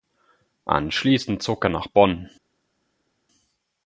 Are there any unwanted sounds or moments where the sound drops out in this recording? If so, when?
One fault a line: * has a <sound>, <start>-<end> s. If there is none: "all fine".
all fine